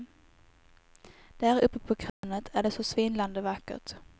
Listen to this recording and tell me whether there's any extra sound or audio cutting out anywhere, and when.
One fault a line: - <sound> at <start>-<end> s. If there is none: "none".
- dropout at 2.1-2.2 s